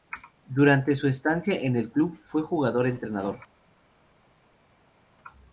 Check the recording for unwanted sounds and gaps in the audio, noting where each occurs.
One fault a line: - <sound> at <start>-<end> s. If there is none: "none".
none